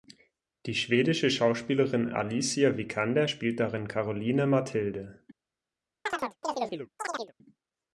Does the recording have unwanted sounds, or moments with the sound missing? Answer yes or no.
yes